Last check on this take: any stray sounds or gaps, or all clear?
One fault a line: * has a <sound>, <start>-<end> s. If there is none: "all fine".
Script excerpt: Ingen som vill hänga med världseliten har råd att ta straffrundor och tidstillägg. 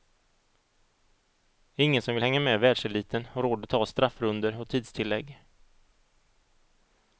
all fine